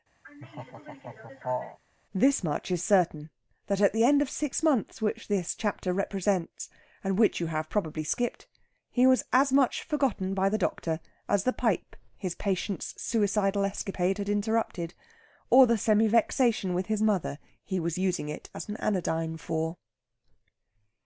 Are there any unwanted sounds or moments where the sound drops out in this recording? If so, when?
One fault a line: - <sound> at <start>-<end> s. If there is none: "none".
- laugh at 0.2-1.8 s